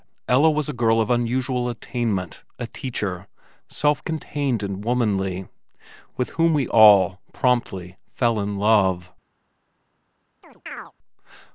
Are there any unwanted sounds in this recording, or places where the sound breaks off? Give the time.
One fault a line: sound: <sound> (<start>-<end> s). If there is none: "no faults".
sound: chirp (10.4-10.9 s)